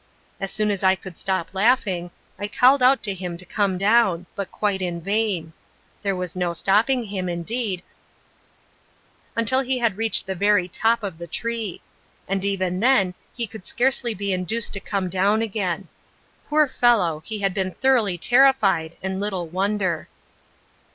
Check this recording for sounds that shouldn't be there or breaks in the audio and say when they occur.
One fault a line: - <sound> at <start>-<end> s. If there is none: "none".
none